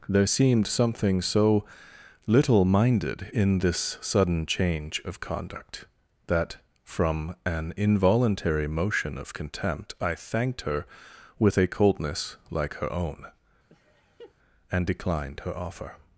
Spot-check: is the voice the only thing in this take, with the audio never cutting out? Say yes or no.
no